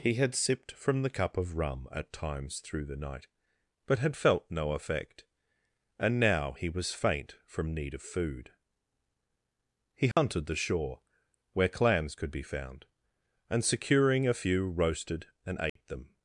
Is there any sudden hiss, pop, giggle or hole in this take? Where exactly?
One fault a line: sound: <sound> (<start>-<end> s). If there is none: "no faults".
sound: dropout (10.1-10.2 s)
sound: dropout (15.7-15.8 s)